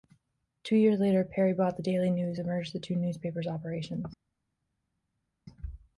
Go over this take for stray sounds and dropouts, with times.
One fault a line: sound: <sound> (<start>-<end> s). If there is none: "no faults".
no faults